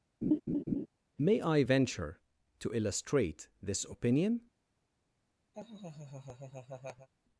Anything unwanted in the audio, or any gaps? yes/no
yes